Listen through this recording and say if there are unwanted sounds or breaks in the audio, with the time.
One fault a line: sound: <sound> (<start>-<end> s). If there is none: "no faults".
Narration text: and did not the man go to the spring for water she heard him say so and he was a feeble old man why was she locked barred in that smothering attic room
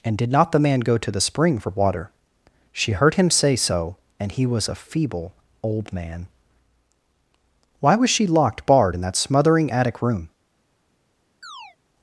sound: chirp (11.4-11.8 s)